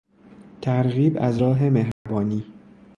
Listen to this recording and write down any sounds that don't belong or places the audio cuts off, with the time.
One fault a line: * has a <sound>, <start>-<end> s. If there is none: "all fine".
* has a dropout, 1.9-2.1 s